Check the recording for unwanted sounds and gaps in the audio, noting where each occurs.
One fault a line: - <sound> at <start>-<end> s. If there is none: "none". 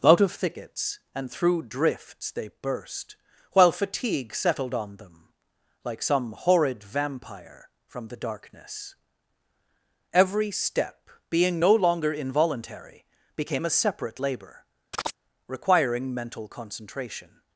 - chirp at 14.9-15.2 s